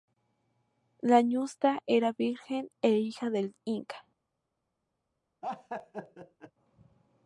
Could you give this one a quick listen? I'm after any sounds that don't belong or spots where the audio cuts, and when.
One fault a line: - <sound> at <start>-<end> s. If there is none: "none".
- laugh at 5.4-6.5 s